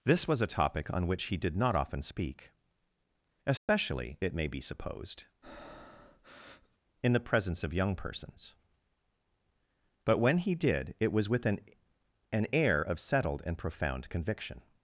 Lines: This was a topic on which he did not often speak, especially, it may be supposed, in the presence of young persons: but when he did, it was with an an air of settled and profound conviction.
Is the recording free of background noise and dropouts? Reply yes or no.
no